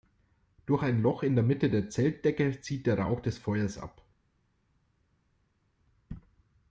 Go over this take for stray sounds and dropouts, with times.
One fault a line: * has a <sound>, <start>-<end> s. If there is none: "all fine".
all fine